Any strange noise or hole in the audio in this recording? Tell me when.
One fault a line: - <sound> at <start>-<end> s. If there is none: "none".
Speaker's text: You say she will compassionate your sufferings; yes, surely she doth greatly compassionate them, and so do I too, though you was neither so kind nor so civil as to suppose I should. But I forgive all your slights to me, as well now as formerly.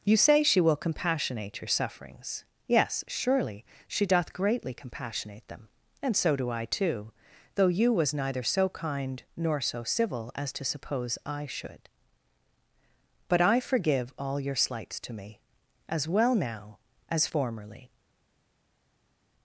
none